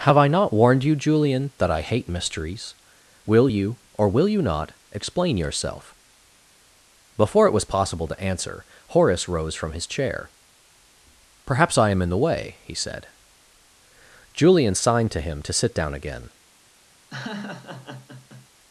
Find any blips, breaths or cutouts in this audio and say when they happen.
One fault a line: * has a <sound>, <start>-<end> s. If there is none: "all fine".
* has a laugh, 17.1-18.5 s